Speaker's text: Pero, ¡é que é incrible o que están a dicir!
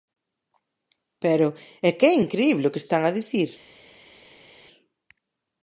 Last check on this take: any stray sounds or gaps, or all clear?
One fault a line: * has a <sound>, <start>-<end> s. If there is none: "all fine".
all fine